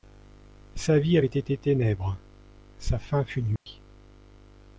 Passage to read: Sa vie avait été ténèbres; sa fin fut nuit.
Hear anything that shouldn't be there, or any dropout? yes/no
yes